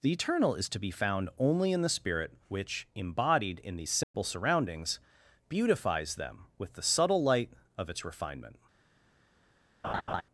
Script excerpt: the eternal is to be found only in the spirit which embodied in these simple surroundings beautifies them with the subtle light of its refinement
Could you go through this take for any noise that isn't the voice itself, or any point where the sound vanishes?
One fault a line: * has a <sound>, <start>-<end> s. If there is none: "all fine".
* has a dropout, 4.0-4.1 s
* has a laugh, 9.8-10.2 s